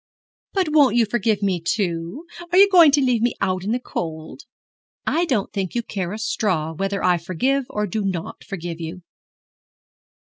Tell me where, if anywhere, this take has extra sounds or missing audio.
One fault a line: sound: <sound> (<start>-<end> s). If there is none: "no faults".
no faults